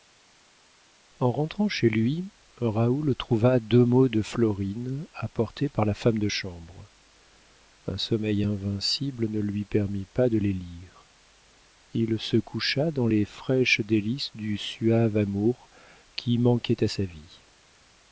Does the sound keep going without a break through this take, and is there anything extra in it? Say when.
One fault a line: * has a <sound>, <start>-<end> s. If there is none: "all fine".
all fine